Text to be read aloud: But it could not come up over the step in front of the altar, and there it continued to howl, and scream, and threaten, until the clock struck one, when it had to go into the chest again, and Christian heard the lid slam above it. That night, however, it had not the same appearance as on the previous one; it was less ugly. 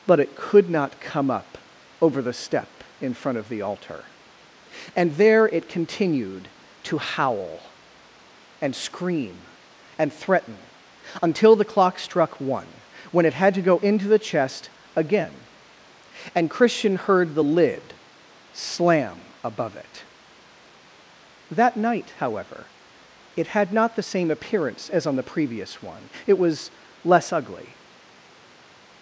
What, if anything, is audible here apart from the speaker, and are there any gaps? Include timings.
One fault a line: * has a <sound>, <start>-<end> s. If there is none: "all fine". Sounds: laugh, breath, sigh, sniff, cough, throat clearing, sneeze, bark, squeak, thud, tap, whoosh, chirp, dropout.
all fine